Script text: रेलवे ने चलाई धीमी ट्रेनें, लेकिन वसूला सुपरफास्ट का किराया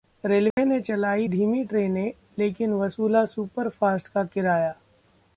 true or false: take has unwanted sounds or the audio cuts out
true